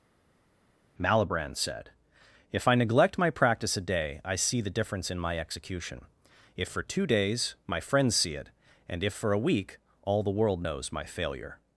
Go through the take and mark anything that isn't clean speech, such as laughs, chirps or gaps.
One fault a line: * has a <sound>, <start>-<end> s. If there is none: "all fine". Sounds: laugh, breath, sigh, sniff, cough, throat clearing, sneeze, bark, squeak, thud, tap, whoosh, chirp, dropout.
all fine